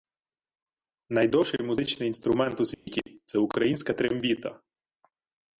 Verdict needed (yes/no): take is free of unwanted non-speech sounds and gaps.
no